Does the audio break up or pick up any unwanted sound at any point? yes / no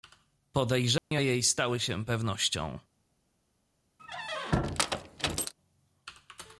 yes